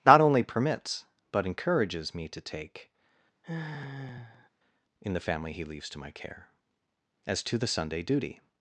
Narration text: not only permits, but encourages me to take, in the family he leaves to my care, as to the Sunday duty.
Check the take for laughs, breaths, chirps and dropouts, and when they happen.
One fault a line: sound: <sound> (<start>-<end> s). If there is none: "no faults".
sound: sigh (3.4-4.5 s)